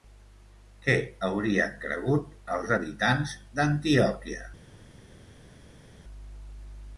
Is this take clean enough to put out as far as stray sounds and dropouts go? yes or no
yes